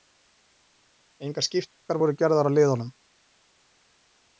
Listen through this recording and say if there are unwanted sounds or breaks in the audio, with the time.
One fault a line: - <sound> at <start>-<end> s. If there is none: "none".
none